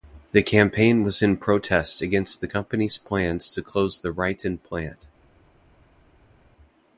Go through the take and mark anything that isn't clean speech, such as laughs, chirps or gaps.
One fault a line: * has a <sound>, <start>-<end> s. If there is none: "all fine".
all fine